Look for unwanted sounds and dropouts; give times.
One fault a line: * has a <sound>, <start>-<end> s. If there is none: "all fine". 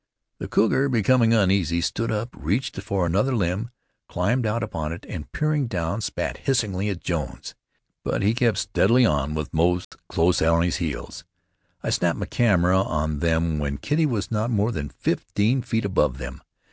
* has a dropout, 9.8-9.9 s